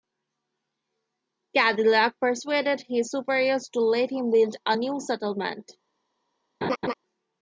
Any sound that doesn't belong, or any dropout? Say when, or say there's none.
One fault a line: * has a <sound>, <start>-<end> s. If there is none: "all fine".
* has a laugh, 6.6-6.9 s